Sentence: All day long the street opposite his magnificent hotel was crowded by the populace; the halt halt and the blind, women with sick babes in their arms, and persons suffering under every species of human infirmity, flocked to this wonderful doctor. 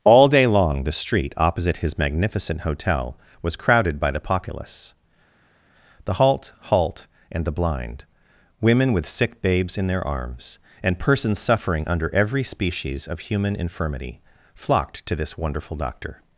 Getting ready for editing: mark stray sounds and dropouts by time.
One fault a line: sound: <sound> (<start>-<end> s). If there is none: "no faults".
no faults